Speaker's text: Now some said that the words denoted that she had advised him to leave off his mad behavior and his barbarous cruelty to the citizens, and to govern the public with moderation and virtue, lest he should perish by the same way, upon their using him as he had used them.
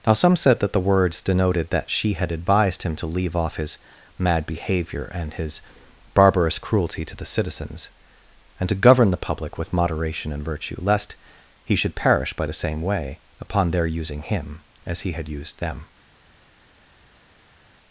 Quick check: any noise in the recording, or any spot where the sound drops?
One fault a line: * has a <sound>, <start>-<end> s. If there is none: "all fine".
all fine